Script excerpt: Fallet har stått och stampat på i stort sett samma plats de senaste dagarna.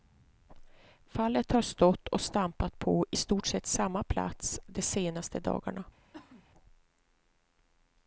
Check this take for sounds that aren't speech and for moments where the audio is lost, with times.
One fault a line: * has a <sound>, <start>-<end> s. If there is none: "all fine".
* has a cough, 6.1-6.5 s